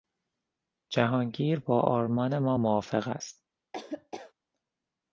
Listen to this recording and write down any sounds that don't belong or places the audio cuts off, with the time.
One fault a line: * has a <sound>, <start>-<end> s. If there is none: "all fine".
* has a laugh, 3.7-4.3 s